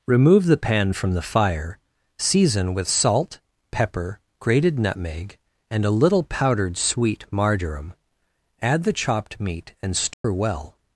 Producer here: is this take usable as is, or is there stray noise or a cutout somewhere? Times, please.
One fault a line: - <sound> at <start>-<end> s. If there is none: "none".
- dropout at 10.1-10.2 s